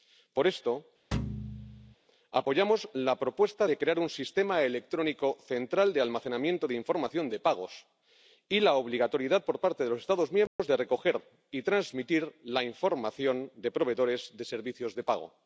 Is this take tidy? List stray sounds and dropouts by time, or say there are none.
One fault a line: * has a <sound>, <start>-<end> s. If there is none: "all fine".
* has a thud, 1.1-1.9 s
* has a dropout, 10.5-10.6 s